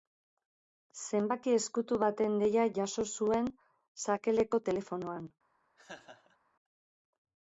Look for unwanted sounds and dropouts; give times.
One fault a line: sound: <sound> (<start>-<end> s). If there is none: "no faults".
sound: laugh (5.8-6.4 s)